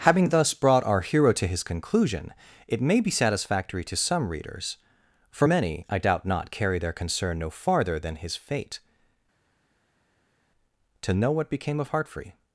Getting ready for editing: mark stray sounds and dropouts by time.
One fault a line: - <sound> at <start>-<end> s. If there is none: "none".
none